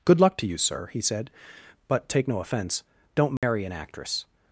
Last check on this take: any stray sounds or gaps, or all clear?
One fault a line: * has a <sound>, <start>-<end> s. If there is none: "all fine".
* has a dropout, 3.4-3.4 s